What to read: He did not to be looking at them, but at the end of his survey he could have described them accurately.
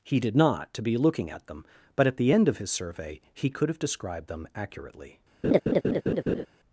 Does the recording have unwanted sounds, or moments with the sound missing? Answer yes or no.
yes